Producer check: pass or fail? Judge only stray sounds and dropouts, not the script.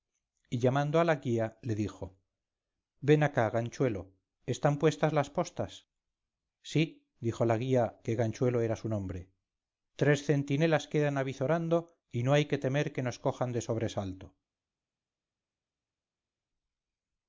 pass